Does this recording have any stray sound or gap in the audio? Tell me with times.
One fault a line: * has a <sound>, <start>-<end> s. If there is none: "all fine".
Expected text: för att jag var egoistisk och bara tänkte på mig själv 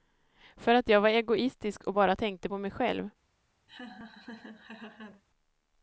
* has a laugh, 3.7-5.2 s